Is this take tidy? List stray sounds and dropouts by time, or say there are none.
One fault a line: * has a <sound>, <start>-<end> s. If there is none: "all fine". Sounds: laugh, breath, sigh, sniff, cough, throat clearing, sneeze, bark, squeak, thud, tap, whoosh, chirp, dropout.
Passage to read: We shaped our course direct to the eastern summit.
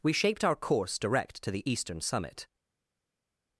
all fine